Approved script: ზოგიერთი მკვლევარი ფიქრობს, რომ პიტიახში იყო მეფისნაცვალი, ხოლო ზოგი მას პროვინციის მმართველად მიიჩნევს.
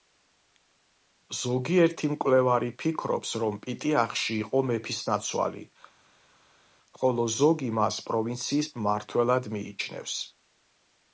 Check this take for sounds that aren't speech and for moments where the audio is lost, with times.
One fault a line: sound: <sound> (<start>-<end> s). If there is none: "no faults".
no faults